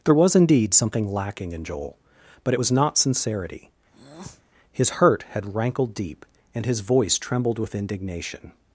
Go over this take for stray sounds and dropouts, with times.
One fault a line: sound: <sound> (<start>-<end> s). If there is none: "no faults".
sound: breath (3.9-4.4 s)